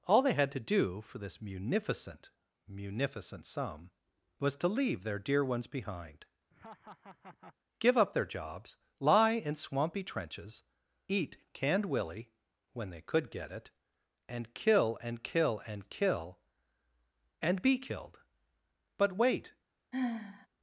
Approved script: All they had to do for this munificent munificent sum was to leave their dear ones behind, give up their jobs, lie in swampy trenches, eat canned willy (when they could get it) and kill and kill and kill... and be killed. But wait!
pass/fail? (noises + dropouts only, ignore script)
fail